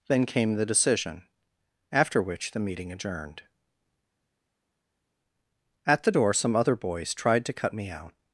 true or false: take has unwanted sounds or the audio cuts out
false